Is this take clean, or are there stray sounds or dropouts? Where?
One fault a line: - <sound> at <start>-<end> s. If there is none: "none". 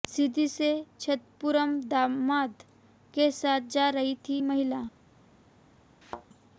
- thud at 6.0-6.3 s